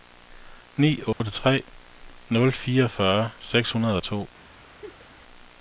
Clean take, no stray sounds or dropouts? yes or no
no